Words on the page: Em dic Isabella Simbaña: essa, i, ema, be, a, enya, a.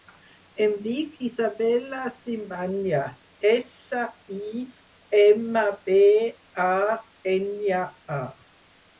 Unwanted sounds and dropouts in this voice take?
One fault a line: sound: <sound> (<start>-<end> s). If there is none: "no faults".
no faults